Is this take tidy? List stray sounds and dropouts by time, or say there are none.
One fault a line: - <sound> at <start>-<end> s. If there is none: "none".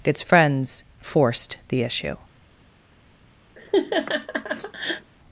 - laugh at 3.6-5.1 s